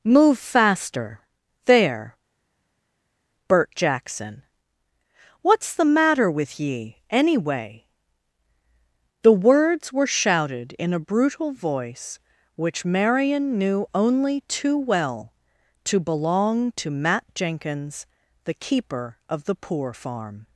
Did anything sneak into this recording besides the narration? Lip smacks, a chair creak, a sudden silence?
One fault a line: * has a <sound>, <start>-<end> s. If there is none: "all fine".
all fine